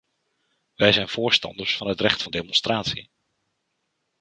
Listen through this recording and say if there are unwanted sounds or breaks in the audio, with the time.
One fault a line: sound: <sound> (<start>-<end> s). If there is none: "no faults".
no faults